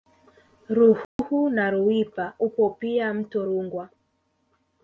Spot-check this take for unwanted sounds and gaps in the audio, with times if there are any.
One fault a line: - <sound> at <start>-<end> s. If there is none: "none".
- dropout at 1.0-1.2 s